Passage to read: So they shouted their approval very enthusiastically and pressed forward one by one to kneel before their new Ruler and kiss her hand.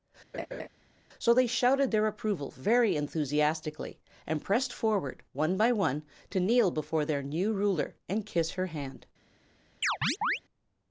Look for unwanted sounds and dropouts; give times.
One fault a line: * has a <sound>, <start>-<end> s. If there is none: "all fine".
* has a laugh, 0.3-0.7 s
* has a chirp, 9.8-10.4 s